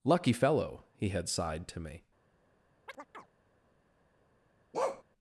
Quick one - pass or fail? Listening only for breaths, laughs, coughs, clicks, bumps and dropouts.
fail